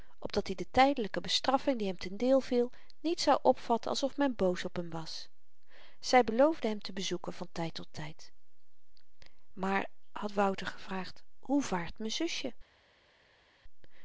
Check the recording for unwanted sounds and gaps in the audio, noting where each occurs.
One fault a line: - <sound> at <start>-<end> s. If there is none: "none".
none